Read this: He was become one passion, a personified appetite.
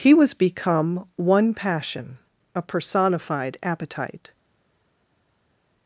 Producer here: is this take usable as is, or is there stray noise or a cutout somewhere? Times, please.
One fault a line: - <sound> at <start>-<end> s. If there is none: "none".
none